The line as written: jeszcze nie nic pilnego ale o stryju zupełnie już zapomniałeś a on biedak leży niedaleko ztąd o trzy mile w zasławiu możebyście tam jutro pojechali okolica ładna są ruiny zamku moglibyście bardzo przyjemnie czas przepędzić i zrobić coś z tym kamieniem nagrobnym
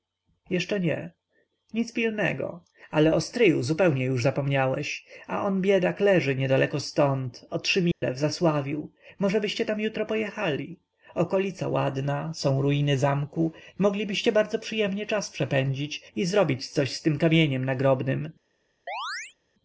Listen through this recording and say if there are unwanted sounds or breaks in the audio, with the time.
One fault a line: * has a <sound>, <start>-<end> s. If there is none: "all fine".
* has a dropout, 7.9-8.0 s
* has a chirp, 18.9-19.4 s